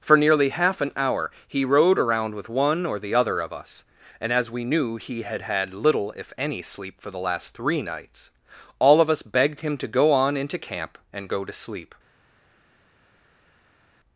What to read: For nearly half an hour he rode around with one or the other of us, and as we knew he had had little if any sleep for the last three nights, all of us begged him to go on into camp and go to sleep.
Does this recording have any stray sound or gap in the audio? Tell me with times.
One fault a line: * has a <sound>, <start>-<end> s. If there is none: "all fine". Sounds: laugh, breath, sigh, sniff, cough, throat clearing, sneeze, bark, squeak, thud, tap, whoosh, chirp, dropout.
all fine